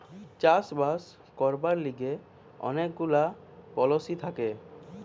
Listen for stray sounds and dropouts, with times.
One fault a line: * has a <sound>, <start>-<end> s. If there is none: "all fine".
all fine